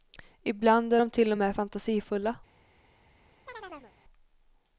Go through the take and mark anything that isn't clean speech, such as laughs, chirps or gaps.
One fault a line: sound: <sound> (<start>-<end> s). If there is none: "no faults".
sound: chirp (3.5-3.9 s)